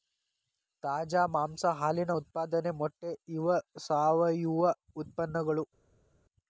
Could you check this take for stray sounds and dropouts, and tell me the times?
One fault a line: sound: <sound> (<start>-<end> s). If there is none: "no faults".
no faults